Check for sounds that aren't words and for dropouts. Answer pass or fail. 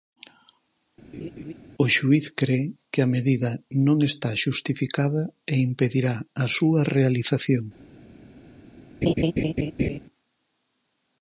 fail